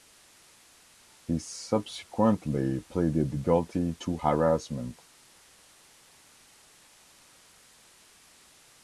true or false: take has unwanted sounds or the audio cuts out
false